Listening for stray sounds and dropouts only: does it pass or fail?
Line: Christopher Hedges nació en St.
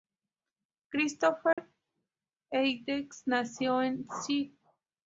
fail